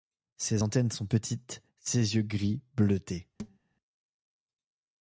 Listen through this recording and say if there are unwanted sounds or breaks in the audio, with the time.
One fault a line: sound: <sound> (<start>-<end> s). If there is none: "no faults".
sound: thud (3.4-3.6 s)